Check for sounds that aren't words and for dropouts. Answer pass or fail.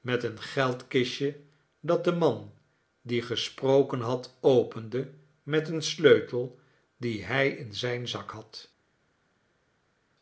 pass